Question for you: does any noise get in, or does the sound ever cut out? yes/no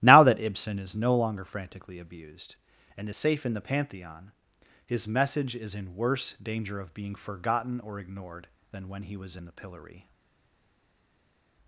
no